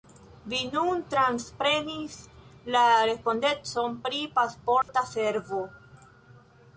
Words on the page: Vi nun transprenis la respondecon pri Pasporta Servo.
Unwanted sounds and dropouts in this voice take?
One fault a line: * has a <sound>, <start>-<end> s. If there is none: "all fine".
* has a dropout, 4.8-4.9 s